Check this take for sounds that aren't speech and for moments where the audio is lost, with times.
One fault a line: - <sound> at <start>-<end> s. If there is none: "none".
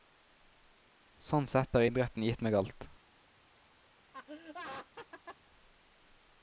- laugh at 4.1-5.4 s